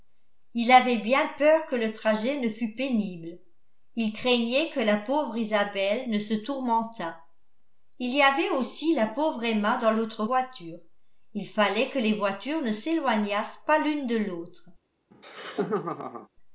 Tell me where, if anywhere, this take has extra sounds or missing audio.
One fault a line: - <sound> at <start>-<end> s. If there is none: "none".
- laugh at 15.1-16.3 s